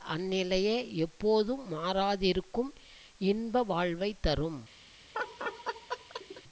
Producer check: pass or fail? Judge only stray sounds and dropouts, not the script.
fail